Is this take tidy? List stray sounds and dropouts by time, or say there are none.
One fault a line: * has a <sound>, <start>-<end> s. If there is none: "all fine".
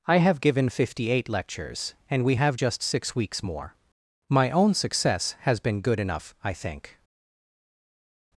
all fine